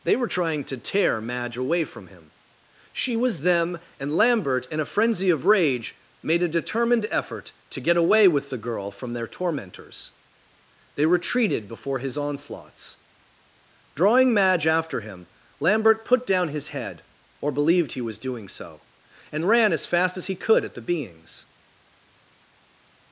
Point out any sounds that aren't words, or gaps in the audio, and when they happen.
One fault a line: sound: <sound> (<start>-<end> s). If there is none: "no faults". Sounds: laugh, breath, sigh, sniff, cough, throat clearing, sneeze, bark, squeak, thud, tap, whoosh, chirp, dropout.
no faults